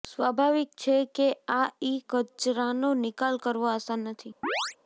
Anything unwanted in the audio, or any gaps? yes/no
yes